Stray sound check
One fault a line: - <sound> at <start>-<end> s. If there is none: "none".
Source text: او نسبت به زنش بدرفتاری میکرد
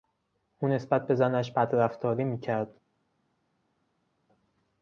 none